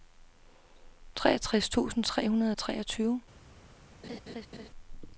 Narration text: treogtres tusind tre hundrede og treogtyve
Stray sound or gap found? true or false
true